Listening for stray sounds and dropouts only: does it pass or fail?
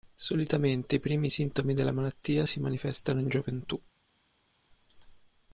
pass